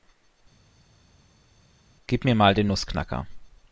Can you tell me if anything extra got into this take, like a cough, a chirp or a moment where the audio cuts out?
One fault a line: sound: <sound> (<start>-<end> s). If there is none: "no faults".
no faults